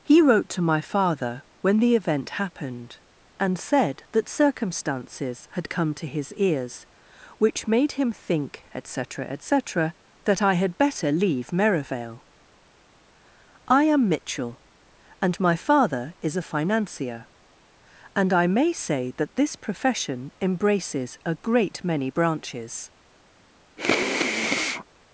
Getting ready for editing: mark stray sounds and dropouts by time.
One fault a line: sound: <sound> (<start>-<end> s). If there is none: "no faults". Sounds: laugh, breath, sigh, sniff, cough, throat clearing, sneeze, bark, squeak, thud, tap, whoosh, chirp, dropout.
sound: sniff (23.8-24.8 s)